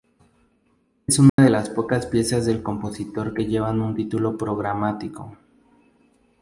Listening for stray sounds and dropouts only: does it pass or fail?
fail